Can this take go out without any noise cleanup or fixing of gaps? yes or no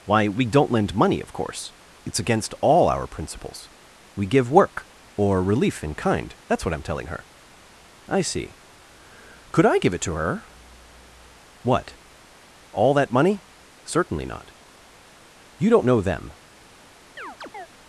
no